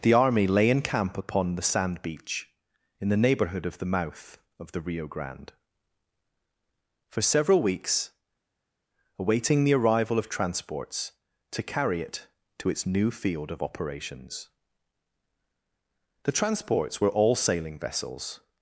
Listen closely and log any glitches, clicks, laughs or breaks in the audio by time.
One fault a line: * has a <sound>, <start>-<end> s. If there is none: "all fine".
all fine